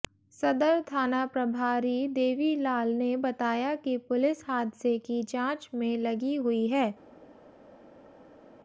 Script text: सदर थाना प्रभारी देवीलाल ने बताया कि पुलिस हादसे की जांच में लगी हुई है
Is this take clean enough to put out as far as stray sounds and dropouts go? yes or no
yes